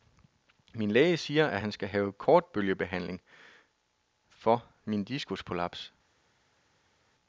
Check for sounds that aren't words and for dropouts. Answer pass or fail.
pass